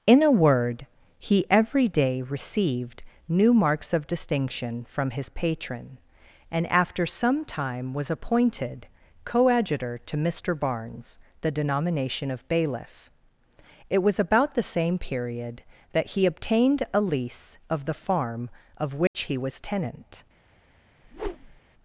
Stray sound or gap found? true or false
true